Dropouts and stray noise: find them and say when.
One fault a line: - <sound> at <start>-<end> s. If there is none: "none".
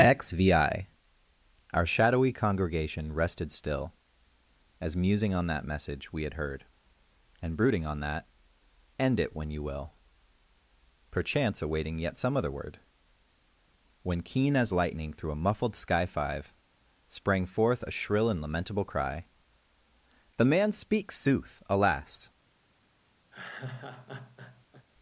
- laugh at 23.3-24.9 s